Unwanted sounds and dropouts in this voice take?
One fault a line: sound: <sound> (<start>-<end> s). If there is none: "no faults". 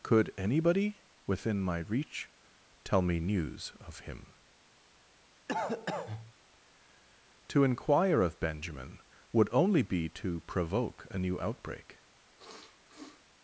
sound: cough (5.5-6.3 s)
sound: sniff (12.4-13.2 s)